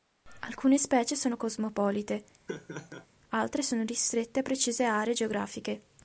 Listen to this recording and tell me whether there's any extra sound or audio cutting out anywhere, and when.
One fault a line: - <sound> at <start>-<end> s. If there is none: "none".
- laugh at 2.5-3.1 s